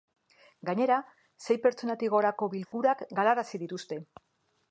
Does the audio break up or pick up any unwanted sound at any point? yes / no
yes